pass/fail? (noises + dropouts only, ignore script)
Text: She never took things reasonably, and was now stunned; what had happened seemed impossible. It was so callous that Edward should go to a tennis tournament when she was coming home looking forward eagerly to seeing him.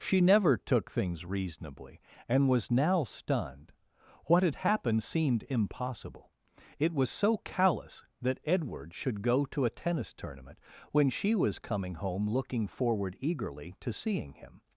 pass